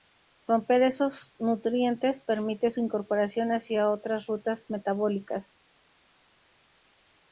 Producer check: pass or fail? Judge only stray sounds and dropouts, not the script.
pass